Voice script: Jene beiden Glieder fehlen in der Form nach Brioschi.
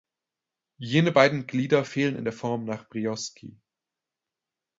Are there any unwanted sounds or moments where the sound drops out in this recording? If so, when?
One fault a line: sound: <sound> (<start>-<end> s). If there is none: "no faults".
no faults